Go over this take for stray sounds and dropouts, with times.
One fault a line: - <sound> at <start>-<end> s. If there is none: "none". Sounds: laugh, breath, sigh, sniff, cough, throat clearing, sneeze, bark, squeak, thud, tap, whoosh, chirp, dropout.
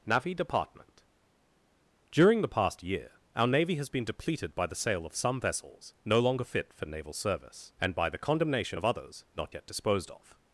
none